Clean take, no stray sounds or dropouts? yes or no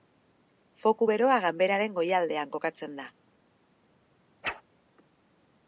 no